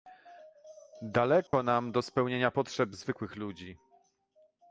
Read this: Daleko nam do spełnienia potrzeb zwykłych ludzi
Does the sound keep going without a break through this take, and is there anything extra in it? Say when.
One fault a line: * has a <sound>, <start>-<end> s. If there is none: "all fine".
* has a dropout, 1.5-1.5 s